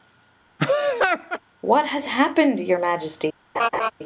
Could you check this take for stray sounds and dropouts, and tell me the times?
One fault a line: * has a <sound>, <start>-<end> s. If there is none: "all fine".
* has a laugh, 0.6-1.4 s
* has a laugh, 3.5-3.9 s